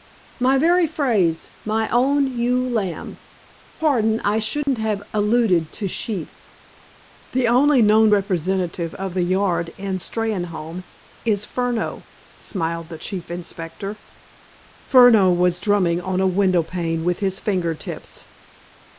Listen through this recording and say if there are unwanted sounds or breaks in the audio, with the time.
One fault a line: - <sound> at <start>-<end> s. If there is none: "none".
- dropout at 4.6-4.7 s